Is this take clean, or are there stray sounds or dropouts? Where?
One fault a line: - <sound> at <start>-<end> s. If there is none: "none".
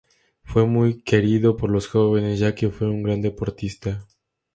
none